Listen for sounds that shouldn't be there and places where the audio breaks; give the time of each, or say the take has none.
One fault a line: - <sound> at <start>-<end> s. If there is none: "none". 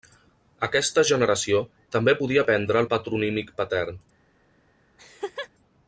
- laugh at 5.0-5.5 s